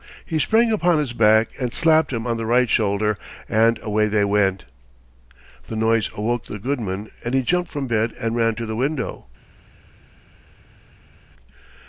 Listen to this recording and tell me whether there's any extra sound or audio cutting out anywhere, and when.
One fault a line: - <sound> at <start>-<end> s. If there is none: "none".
none